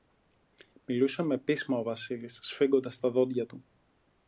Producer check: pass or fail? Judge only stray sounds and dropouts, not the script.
pass